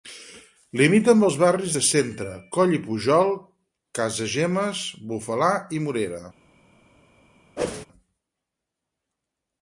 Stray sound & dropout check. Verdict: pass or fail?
fail